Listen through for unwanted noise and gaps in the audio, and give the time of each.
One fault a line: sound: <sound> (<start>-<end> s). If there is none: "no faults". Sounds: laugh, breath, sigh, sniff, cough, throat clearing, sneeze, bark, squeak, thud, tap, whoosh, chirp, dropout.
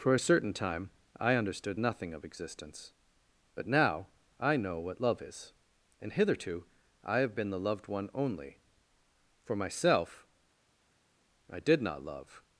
no faults